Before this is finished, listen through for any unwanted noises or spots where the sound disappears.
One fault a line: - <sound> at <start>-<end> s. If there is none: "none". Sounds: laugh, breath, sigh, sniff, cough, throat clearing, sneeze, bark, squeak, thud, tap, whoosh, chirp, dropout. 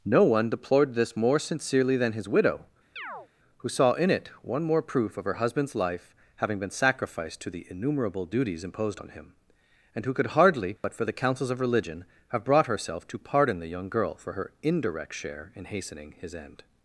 - chirp at 3.0-3.3 s
- dropout at 10.8-10.8 s